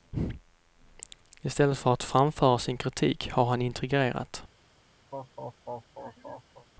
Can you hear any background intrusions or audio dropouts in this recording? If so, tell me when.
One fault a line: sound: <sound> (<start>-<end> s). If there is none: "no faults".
sound: laugh (5.1-6.7 s)